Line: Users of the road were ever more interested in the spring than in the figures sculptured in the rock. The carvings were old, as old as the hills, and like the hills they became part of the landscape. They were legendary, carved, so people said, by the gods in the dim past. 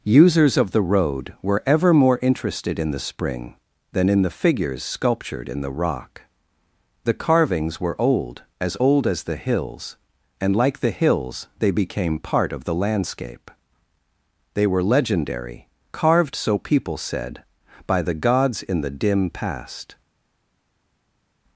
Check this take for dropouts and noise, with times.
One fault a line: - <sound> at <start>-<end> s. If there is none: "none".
none